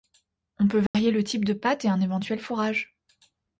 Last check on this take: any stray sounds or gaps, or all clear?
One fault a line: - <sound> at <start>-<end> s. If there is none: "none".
- dropout at 0.9-0.9 s